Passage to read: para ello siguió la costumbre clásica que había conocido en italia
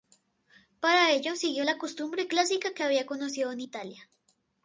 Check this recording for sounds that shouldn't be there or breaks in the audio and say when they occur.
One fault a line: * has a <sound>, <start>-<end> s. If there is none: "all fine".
all fine